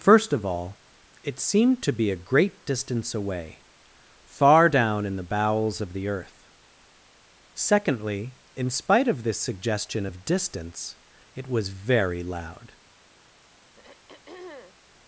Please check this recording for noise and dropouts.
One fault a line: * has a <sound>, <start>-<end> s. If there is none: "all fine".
* has a throat clearing, 13.8-14.8 s